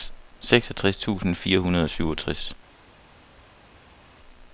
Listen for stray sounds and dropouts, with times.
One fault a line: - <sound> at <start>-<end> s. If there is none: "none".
none